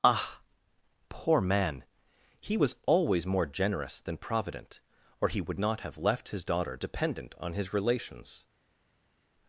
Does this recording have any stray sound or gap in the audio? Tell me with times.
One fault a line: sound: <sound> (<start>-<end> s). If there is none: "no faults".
no faults